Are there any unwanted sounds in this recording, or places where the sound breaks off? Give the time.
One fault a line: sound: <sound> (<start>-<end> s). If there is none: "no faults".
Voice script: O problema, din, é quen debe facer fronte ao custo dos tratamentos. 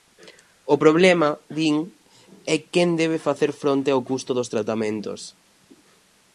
no faults